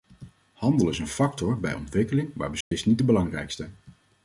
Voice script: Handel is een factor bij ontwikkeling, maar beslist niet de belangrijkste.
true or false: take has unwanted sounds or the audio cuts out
true